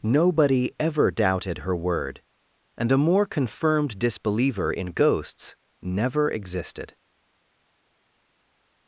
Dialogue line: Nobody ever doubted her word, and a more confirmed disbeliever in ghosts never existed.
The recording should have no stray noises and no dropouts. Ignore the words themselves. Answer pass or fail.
pass